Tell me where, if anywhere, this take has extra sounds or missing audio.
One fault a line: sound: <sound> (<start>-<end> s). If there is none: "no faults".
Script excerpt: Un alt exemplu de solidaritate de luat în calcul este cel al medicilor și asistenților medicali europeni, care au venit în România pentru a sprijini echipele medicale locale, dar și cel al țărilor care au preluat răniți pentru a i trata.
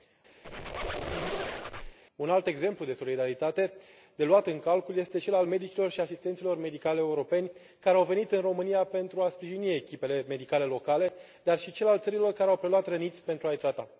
sound: squeak (0.4-2.0 s)